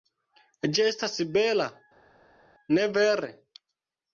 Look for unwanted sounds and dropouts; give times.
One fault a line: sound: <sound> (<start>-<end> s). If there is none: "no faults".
no faults